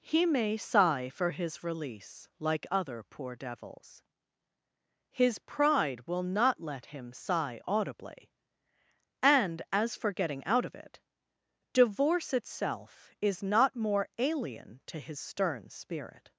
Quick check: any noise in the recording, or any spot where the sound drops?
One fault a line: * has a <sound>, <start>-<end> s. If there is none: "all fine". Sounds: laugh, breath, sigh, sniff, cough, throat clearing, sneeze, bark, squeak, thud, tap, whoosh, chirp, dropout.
all fine